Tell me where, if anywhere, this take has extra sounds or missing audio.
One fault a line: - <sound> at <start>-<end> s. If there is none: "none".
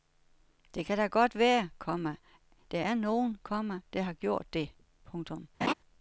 - laugh at 5.6-5.7 s